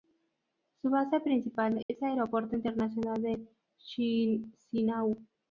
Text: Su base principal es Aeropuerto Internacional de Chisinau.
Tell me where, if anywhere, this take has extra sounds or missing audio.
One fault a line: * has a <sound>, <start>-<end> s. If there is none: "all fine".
* has a dropout, 1.8-1.9 s